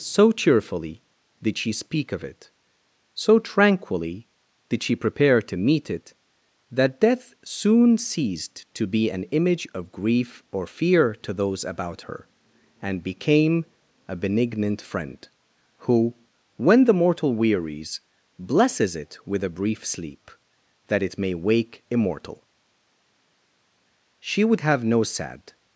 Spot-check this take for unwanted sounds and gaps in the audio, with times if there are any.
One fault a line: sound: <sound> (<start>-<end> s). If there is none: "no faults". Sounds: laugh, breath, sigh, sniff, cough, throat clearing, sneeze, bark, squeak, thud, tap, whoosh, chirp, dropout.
no faults